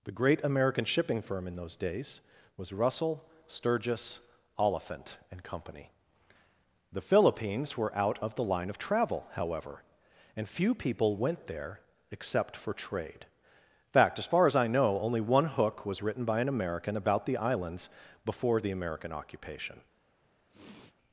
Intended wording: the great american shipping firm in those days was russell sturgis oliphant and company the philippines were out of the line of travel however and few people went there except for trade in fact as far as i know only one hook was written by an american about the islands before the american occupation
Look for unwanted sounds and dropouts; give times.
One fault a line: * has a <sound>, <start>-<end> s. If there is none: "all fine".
* has a sniff, 20.5-21.0 s